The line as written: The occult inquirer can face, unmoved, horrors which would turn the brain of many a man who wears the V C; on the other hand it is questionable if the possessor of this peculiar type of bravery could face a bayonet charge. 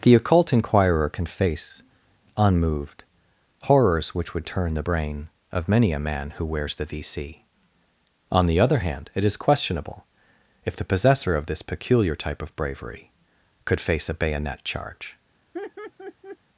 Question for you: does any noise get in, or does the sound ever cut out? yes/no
yes